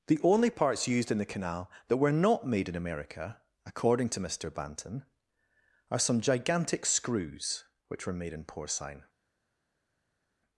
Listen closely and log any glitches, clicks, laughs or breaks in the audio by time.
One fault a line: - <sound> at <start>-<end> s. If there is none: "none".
none